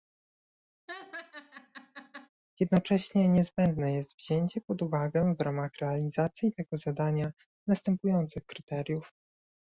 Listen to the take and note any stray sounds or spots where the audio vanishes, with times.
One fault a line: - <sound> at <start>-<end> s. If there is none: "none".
- laugh at 0.9-2.3 s